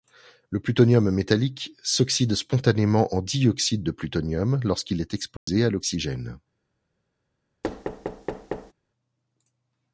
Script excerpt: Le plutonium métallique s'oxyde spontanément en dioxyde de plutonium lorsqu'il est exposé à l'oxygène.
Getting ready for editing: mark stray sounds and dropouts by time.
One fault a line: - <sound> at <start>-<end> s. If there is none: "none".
- dropout at 5.4-5.5 s
- thud at 7.6-8.7 s